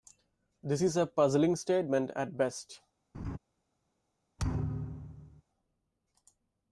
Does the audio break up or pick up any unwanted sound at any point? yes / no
yes